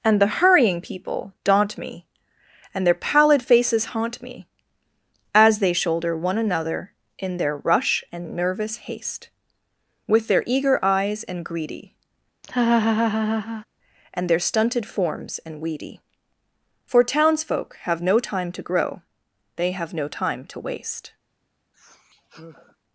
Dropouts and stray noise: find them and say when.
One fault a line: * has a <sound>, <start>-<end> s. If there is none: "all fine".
* has a laugh, 12.4-13.7 s
* has a sigh, 21.7-22.8 s